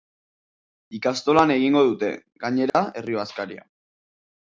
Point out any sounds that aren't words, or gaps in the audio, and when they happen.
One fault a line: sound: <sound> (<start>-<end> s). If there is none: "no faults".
sound: dropout (2.7-2.7 s)